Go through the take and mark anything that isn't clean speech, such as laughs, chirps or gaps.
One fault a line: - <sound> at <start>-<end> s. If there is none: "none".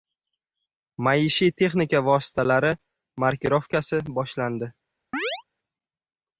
- chirp at 5.1-5.4 s